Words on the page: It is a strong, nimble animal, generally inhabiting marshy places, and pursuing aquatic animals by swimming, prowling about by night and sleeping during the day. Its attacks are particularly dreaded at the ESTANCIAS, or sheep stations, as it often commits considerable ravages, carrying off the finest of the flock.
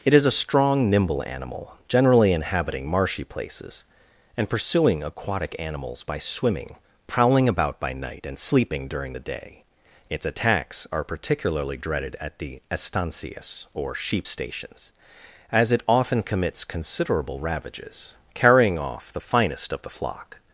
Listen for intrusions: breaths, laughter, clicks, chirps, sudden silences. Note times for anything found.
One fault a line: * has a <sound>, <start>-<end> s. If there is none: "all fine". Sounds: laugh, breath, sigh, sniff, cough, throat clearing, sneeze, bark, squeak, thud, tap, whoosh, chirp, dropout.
all fine